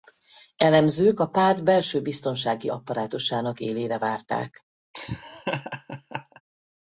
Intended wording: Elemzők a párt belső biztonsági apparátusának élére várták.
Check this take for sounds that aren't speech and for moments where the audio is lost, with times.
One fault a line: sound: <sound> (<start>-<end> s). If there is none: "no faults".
sound: laugh (4.9-6.4 s)